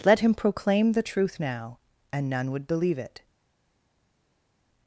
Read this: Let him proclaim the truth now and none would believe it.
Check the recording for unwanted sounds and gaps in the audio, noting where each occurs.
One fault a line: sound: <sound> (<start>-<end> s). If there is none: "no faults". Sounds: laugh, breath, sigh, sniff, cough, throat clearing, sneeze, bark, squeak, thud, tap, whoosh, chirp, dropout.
no faults